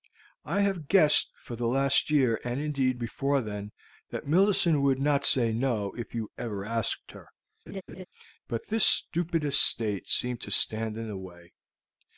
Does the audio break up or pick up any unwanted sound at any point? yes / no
yes